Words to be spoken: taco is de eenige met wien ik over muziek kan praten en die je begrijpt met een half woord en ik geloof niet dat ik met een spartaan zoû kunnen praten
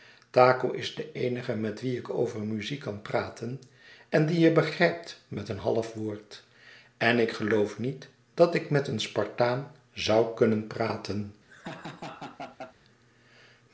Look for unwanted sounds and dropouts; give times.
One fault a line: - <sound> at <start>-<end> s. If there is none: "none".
- laugh at 11.5-12.7 s